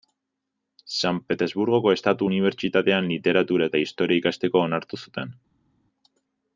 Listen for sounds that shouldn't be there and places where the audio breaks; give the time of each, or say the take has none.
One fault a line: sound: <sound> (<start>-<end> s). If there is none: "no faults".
no faults